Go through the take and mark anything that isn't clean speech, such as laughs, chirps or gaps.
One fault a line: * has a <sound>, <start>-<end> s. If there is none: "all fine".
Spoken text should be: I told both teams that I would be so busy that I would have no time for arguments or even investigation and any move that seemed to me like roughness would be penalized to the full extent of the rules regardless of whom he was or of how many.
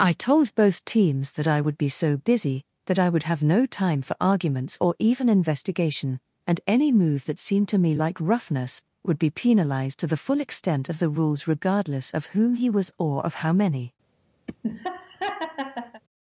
* has a laugh, 14.5-16.0 s